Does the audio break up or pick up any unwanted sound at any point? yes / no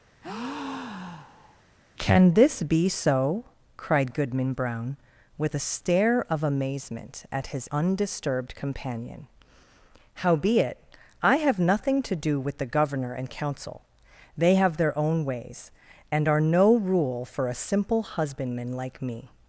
yes